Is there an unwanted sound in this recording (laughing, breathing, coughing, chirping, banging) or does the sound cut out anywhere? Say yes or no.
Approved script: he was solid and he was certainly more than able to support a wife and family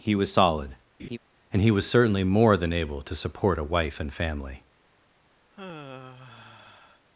yes